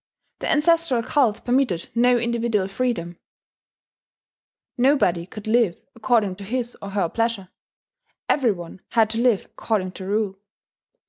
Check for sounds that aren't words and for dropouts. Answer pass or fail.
pass